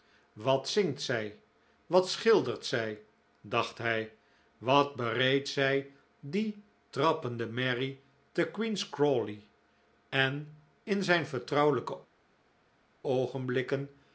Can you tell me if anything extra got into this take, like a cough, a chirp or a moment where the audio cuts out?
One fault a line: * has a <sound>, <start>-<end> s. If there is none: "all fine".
all fine